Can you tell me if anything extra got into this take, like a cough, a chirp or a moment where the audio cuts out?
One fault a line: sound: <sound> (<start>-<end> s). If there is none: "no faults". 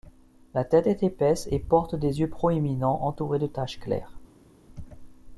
no faults